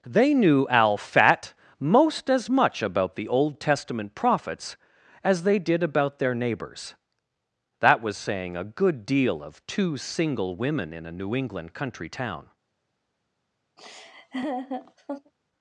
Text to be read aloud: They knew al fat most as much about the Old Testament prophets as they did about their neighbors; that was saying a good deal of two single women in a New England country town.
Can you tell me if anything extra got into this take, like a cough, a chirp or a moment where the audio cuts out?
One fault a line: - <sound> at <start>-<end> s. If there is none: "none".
- laugh at 13.8-15.3 s